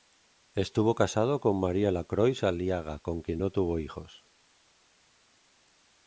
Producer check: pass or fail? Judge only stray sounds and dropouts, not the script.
pass